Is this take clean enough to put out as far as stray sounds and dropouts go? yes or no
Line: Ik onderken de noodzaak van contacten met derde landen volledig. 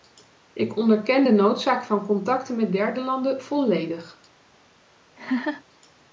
no